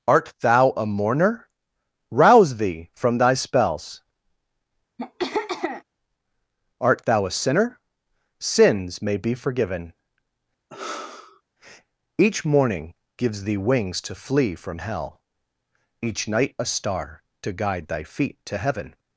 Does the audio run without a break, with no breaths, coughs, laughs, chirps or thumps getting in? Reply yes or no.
no